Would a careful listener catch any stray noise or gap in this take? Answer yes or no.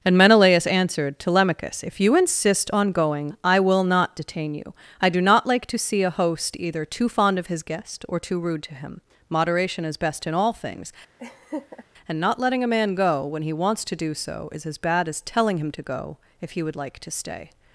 yes